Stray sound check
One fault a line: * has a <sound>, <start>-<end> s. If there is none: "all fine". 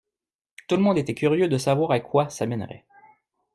all fine